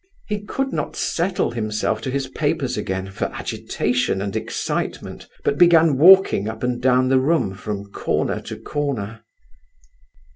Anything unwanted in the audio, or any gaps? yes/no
no